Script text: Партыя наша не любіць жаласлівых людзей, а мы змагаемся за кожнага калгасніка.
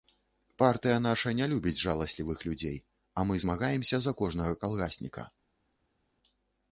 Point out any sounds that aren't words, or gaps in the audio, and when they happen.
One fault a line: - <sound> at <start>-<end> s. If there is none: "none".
none